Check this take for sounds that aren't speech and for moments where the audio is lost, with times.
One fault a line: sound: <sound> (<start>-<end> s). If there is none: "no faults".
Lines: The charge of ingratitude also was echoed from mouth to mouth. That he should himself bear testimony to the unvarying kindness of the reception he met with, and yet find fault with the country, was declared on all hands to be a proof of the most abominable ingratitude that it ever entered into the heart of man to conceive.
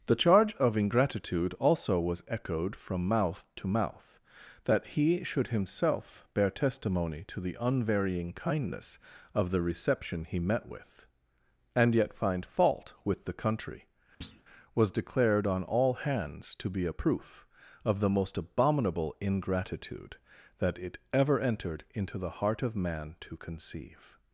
sound: thud (14.2-14.4 s)